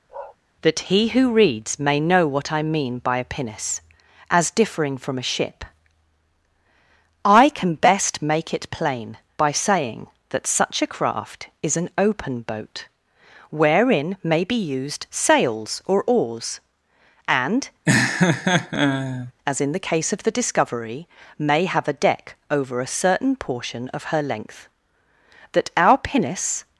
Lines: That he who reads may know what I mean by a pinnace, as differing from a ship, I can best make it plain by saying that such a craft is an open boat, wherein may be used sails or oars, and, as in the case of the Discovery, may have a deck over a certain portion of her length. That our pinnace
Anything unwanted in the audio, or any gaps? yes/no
yes